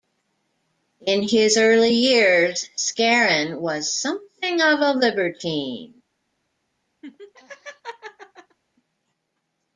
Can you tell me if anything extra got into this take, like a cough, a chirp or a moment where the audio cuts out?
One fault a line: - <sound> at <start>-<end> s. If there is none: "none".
- laugh at 7.0-8.6 s